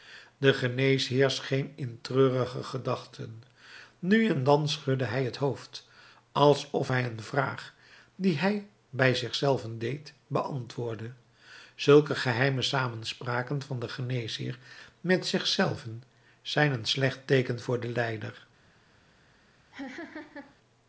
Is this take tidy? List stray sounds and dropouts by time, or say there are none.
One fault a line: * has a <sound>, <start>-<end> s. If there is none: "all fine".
* has a laugh, 19.7-20.6 s